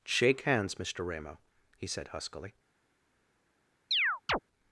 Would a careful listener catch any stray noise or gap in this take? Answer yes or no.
yes